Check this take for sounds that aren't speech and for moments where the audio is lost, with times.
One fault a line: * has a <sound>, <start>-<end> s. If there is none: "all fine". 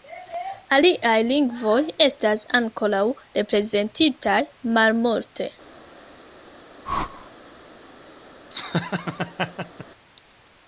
* has a whoosh, 6.9-7.3 s
* has a laugh, 8.5-9.9 s